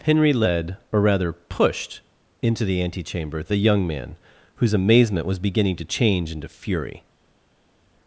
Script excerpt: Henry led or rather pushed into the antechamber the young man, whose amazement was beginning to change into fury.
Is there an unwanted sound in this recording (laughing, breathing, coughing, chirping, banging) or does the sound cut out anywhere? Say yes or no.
no